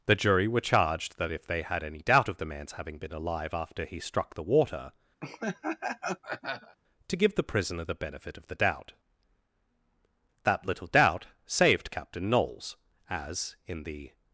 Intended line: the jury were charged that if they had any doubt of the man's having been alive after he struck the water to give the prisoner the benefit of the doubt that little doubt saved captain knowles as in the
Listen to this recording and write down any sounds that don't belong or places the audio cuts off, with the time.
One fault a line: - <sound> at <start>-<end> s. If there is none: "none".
- laugh at 5.2-6.8 s